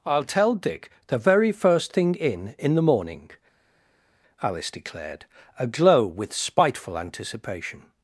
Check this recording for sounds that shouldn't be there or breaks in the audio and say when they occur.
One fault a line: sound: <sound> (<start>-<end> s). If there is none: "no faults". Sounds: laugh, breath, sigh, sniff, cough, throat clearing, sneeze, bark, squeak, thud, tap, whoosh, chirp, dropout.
no faults